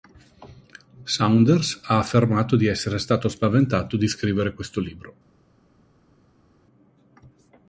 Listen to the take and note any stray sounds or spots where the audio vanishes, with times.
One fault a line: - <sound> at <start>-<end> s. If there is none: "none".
none